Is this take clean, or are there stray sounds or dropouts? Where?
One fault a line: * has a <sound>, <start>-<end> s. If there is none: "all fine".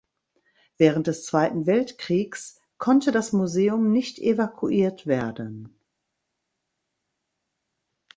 all fine